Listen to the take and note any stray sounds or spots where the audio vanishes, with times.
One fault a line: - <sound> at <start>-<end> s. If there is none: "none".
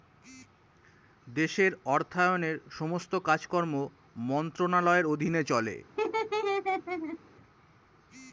- laugh at 6.0-7.2 s